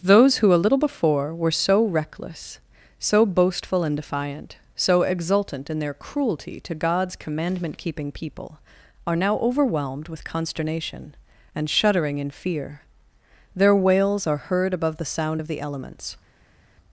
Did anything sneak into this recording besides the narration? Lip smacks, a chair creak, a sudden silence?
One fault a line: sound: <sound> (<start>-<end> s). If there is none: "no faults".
no faults